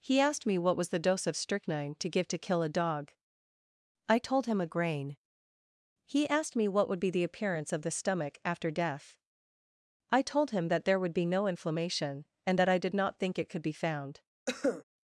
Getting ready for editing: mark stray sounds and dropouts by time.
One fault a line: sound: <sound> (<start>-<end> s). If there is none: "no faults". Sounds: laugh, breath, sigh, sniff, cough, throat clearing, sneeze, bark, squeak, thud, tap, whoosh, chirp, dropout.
sound: cough (14.5-14.8 s)